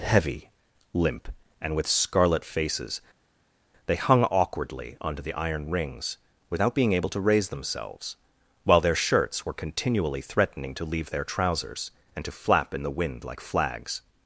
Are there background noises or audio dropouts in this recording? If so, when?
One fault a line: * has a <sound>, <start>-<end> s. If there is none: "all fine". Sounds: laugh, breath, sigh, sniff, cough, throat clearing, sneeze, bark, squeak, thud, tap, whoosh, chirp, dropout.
all fine